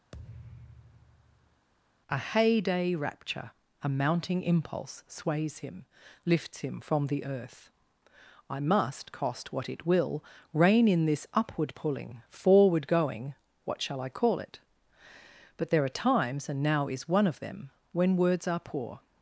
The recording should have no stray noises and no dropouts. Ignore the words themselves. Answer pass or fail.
fail